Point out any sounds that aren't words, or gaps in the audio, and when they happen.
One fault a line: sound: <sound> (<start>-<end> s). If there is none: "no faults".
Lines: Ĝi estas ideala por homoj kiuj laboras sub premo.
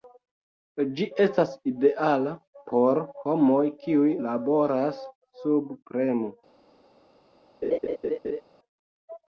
sound: laugh (7.6-8.4 s)